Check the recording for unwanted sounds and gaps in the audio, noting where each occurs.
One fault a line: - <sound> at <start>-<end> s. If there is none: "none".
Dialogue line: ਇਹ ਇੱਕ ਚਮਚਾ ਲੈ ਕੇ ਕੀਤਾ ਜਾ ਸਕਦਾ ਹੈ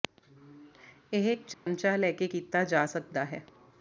- dropout at 1.5-1.7 s